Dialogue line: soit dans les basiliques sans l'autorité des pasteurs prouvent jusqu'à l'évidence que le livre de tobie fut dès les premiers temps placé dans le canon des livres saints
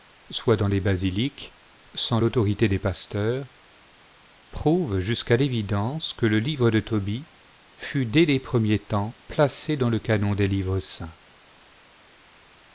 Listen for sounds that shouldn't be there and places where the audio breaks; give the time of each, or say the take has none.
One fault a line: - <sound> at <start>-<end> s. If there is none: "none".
none